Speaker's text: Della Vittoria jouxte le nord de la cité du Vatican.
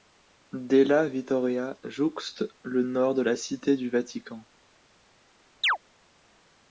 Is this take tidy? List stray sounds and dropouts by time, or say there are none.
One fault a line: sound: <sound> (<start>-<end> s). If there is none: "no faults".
sound: chirp (5.6-5.8 s)